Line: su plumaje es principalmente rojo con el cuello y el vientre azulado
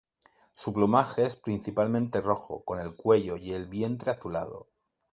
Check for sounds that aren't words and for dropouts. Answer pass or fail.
pass